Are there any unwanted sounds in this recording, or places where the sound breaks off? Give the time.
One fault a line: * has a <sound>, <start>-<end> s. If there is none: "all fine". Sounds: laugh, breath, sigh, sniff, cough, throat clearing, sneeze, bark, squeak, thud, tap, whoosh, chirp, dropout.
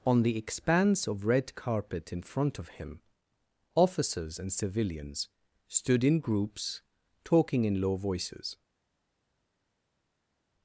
all fine